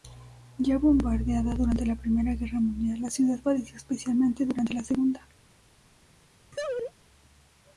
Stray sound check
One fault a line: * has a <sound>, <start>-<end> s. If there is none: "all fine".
* has a laugh, 6.5-6.9 s